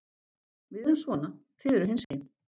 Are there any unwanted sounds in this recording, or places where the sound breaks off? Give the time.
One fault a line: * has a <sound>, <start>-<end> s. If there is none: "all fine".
* has a dropout, 2.0-2.1 s